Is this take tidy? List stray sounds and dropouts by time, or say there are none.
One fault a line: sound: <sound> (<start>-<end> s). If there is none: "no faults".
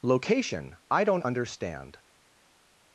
no faults